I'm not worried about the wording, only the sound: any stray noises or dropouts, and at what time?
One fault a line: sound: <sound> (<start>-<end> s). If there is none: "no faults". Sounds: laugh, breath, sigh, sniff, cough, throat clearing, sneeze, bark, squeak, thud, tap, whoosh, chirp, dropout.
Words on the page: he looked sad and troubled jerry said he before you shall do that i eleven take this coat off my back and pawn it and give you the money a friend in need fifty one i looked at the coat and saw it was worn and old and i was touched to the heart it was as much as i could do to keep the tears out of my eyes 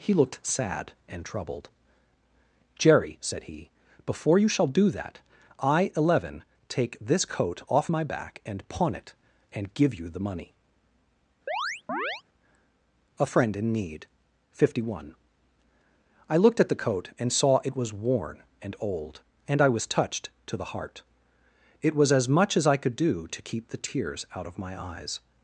sound: chirp (11.5-12.2 s)